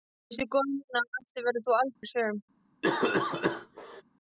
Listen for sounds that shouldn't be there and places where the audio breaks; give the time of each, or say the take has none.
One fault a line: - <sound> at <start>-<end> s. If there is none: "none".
- dropout at 2.0-2.0 s
- cough at 2.8-4.0 s